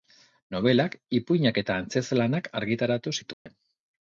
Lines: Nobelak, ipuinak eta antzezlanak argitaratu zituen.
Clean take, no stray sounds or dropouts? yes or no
no